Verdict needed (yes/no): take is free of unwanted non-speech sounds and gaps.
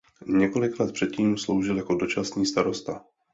yes